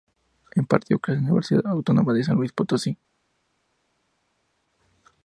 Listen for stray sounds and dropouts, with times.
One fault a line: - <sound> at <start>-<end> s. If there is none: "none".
none